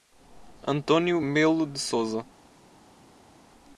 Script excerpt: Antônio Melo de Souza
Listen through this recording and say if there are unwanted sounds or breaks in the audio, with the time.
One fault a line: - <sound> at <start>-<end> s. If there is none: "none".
none